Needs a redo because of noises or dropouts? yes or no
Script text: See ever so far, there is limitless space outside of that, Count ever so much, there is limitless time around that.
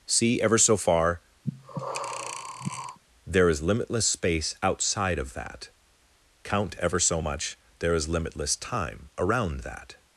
yes